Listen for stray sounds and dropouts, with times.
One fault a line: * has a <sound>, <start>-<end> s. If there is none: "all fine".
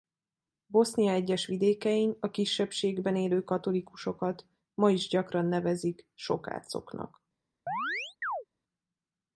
* has a chirp, 7.7-8.4 s